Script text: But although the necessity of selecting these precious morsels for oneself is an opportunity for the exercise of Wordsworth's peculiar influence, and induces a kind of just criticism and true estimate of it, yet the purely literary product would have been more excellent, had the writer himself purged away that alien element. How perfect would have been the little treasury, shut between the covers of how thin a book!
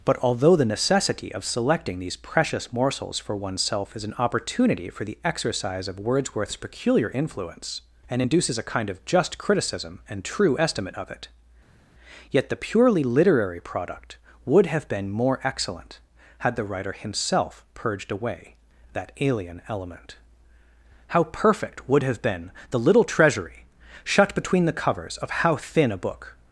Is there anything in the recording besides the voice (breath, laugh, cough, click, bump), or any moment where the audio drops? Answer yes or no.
no